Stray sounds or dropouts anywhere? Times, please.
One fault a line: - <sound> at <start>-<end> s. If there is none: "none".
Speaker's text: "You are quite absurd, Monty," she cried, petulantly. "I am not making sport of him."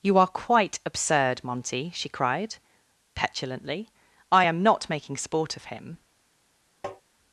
- tap at 6.8-7.0 s